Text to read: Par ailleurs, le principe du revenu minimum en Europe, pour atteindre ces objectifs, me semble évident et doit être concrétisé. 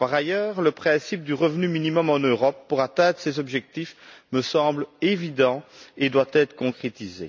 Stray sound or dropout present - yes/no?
no